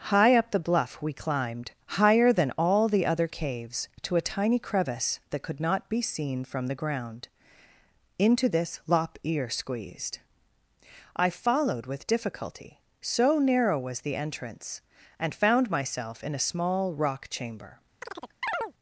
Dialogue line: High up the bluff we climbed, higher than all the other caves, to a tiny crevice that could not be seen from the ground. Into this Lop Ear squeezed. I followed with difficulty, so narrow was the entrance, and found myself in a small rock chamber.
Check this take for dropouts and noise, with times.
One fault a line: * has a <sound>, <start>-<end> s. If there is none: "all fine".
* has a chirp, 18.0-18.7 s